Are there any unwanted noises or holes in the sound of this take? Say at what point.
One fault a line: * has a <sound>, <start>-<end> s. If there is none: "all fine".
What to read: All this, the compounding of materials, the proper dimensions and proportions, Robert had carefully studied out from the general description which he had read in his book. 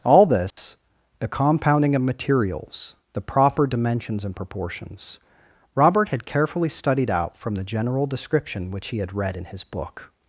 * has a dropout, 0.5-0.6 s